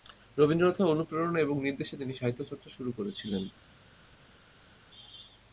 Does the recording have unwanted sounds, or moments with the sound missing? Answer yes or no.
no